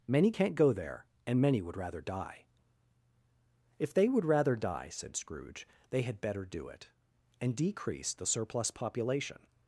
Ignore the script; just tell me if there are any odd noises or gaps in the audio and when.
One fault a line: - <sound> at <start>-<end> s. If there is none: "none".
none